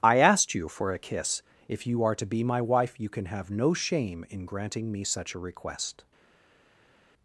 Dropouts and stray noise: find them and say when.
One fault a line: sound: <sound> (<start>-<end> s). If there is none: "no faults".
no faults